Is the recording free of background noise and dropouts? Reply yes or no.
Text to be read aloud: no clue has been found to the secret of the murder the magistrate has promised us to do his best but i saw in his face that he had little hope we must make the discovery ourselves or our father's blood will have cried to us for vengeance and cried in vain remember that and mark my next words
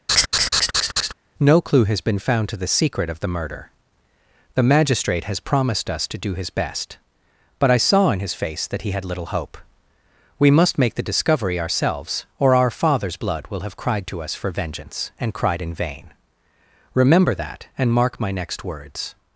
no